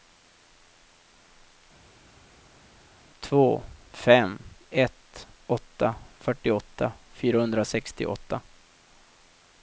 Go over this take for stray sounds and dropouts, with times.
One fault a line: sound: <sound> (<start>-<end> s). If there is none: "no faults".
no faults